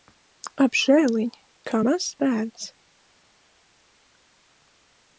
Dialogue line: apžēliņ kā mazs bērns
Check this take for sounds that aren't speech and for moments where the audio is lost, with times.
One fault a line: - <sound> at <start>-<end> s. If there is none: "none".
none